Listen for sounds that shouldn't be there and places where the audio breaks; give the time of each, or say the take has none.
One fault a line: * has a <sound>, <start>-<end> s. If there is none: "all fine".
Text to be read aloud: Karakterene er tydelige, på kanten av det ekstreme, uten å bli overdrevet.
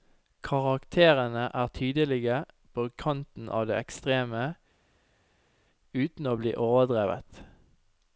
all fine